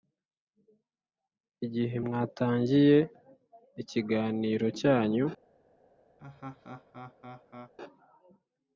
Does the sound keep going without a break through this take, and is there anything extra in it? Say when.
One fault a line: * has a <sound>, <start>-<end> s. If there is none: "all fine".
* has a laugh, 6.2-7.7 s